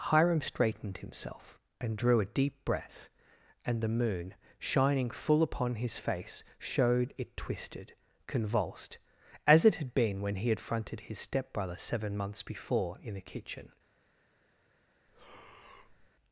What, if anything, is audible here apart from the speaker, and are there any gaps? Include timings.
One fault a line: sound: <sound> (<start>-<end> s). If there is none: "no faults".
sound: breath (15.1-16.1 s)